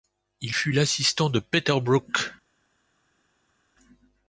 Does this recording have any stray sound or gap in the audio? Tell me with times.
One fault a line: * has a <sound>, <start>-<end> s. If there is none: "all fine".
all fine